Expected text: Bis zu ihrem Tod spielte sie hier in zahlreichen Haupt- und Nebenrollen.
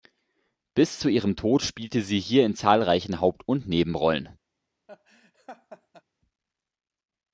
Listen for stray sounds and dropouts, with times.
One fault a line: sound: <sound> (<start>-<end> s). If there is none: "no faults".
sound: laugh (4.9-6.0 s)